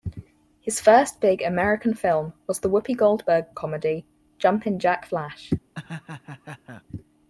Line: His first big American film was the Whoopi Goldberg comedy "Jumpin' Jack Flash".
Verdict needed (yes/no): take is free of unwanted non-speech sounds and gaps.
no